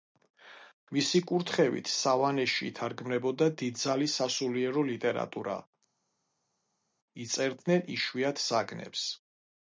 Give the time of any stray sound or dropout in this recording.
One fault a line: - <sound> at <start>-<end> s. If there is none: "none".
none